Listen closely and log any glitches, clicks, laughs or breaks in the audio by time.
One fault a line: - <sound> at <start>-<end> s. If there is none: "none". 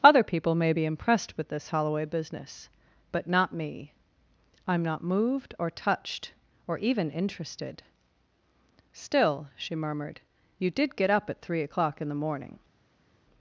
none